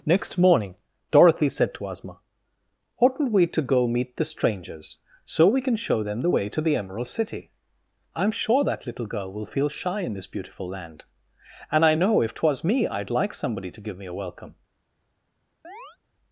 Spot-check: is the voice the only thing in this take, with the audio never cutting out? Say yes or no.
no